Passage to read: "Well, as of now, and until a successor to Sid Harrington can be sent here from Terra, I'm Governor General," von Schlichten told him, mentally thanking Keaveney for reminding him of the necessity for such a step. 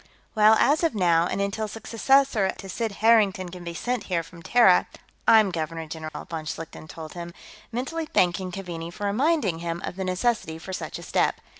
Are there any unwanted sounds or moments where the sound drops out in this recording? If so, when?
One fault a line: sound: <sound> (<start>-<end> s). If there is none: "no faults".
sound: dropout (6.1-6.1 s)